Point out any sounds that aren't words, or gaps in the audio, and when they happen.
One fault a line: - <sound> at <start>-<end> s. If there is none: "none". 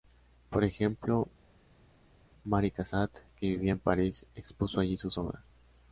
none